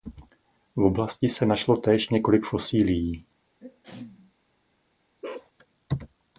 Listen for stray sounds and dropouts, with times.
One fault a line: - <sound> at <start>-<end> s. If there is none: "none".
- sneeze at 3.6-4.3 s
- bark at 5.2-5.5 s